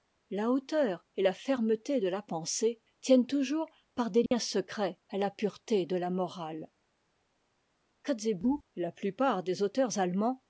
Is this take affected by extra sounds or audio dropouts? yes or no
yes